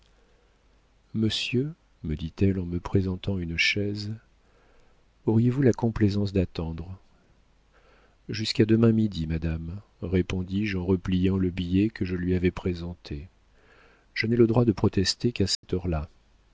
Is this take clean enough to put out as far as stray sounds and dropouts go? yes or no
no